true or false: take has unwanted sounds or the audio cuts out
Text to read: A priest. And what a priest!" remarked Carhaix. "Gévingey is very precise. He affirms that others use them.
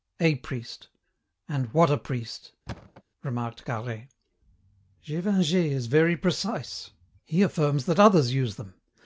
true